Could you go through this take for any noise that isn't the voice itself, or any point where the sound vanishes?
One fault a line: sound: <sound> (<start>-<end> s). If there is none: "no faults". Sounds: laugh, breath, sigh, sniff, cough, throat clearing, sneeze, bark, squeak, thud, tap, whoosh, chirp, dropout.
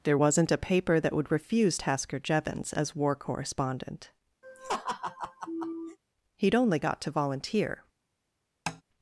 sound: laugh (4.4-6.0 s)
sound: tap (8.7-8.8 s)